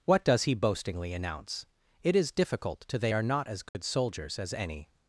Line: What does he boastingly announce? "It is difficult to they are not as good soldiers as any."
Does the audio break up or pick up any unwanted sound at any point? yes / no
yes